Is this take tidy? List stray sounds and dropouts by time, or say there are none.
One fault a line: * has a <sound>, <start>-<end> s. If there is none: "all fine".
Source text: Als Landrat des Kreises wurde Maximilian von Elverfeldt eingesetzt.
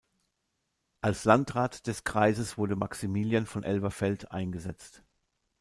all fine